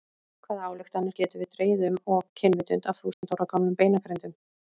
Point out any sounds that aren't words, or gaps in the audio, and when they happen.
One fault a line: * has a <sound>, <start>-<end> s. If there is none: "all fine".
* has a dropout, 3.1-3.2 s